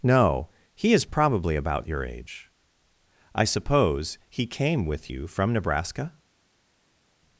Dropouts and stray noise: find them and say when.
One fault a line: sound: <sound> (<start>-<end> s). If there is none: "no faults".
no faults